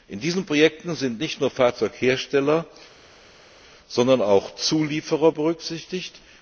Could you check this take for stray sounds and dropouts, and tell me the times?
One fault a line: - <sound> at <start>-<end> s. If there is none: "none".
none